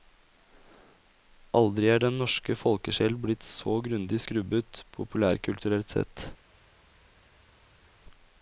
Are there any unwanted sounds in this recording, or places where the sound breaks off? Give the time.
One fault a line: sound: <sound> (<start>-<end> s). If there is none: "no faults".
no faults